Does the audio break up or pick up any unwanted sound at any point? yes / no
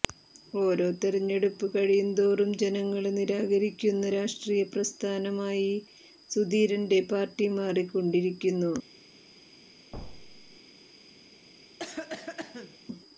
yes